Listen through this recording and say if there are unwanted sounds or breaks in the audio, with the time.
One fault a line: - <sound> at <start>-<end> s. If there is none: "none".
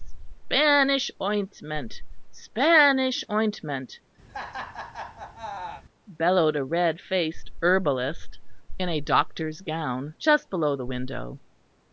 - laugh at 4.3-5.8 s